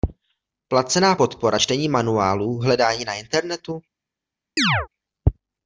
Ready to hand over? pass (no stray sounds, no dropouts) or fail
fail